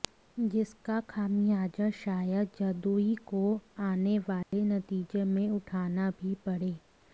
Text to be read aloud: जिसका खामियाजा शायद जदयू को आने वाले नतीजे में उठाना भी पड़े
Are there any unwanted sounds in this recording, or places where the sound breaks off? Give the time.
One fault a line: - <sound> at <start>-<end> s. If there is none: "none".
- dropout at 4.4-4.5 s